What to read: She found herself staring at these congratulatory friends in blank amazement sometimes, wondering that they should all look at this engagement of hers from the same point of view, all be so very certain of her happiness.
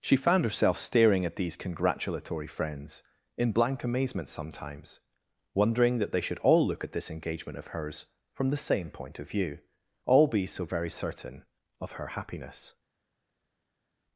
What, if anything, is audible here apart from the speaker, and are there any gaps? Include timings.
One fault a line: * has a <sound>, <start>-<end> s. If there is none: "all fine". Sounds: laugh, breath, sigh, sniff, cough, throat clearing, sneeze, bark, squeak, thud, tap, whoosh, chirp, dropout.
all fine